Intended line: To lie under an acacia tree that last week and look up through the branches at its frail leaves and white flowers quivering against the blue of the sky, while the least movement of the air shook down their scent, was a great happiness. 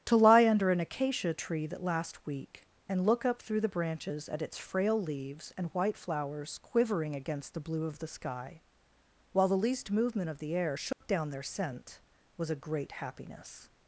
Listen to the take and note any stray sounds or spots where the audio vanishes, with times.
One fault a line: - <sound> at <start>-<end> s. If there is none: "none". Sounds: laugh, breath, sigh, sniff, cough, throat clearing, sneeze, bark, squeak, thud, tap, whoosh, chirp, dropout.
- dropout at 10.9-11.0 s